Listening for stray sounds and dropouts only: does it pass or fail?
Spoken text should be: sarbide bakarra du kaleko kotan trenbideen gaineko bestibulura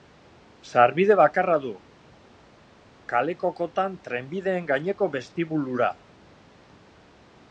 pass